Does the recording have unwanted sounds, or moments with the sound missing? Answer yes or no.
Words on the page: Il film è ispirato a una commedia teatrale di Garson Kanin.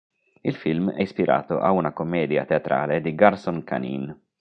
no